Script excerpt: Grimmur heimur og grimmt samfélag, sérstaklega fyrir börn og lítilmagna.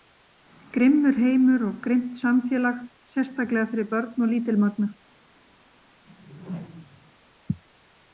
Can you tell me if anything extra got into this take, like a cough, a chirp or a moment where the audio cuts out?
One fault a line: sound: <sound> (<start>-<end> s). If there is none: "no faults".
sound: whoosh (6.1-7.1 s)